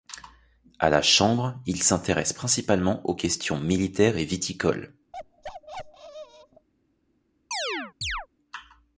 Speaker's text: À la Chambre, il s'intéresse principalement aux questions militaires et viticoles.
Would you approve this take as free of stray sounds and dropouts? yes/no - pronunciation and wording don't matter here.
no